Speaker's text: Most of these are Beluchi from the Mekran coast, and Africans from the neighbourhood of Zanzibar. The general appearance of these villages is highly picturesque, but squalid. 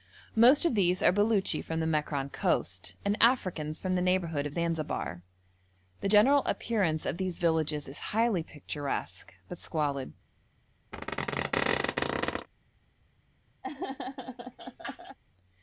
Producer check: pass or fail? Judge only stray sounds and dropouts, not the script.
fail